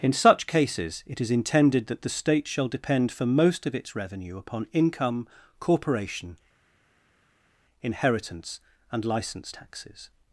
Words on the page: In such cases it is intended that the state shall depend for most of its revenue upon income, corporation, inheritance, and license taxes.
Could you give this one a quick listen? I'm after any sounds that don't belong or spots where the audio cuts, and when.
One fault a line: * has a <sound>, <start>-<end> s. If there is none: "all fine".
all fine